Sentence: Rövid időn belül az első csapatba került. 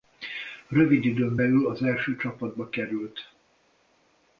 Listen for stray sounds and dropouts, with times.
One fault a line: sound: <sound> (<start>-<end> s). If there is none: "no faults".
no faults